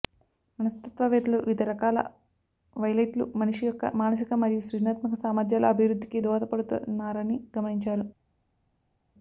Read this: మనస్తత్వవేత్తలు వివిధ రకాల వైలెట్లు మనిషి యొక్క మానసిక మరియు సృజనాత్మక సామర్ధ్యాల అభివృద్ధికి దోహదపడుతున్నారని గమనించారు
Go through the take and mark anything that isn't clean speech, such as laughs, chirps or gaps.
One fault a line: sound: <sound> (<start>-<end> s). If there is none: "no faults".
no faults